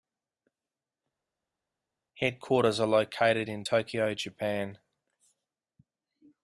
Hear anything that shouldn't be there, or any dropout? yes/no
no